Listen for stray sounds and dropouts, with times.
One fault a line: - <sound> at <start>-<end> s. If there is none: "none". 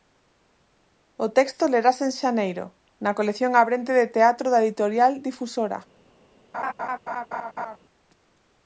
- laugh at 6.5-7.8 s